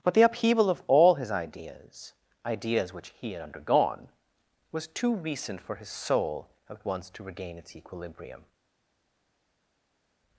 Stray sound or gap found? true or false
false